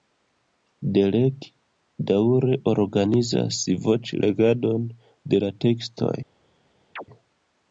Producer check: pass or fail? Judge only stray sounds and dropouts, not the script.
fail